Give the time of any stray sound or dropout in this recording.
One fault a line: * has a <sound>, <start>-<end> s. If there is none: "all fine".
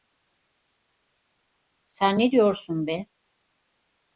all fine